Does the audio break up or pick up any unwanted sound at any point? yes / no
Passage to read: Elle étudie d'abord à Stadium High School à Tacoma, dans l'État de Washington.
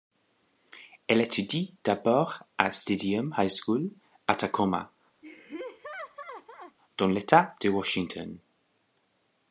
yes